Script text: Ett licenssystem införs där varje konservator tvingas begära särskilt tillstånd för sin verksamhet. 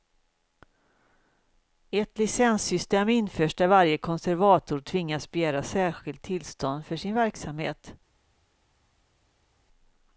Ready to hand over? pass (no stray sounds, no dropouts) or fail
pass